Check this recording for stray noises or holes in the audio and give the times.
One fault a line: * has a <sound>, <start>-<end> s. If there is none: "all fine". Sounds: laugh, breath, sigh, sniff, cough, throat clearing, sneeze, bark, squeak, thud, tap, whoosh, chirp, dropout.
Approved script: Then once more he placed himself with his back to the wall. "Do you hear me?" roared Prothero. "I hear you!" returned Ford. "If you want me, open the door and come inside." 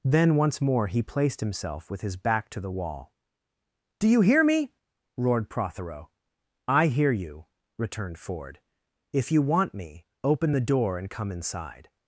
all fine